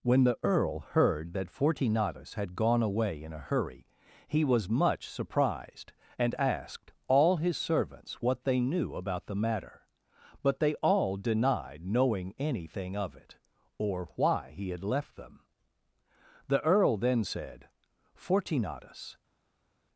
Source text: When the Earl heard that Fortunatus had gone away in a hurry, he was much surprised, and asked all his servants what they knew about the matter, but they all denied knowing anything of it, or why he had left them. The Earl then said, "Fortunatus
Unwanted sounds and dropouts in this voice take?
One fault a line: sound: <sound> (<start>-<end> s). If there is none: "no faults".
no faults